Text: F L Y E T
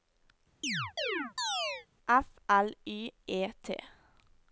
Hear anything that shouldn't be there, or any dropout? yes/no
yes